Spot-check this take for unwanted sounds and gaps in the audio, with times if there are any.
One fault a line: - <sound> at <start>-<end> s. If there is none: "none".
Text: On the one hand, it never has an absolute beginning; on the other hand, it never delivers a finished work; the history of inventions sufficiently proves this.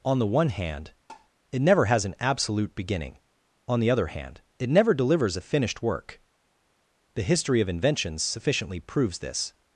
- tap at 1.1-1.3 s